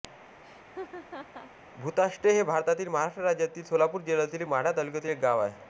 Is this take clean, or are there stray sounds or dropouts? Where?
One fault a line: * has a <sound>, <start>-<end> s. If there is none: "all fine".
* has a laugh, 0.4-1.5 s